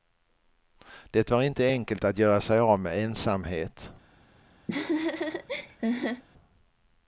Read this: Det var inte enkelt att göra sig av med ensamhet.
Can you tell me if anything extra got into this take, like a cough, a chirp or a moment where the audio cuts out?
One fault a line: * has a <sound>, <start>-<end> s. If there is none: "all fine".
* has a laugh, 4.7-6.2 s